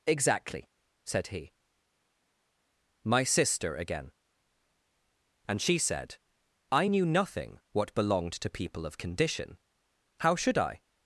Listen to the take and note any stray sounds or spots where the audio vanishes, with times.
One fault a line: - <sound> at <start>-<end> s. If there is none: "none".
none